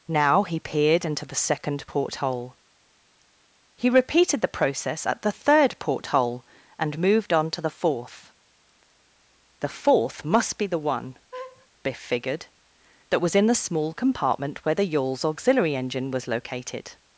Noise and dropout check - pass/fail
fail